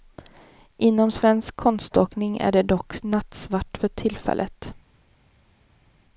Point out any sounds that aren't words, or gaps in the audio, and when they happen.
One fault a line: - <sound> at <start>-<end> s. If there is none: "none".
none